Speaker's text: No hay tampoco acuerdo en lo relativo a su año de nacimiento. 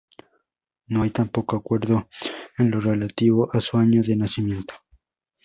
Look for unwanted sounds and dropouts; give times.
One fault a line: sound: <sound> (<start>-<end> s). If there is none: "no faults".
no faults